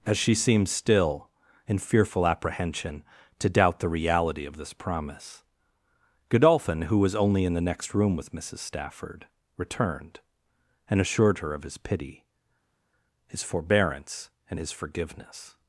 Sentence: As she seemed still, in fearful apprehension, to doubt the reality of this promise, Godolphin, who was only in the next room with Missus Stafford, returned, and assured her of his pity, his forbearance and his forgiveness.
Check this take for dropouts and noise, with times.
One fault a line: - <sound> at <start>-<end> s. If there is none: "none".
none